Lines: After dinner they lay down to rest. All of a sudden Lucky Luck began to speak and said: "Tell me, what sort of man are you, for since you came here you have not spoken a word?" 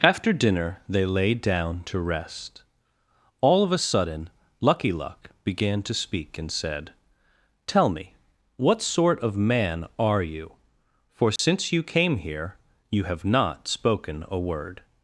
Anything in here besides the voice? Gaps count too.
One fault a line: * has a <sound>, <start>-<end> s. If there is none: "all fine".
* has a dropout, 11.4-11.4 s